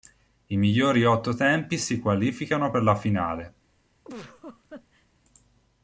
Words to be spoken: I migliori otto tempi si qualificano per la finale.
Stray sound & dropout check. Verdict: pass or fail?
fail